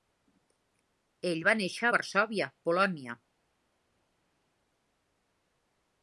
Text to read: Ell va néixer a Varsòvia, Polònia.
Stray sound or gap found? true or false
false